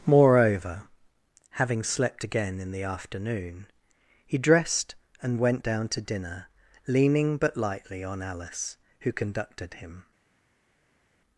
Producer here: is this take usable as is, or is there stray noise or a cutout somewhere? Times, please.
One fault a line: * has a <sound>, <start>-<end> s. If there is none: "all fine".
all fine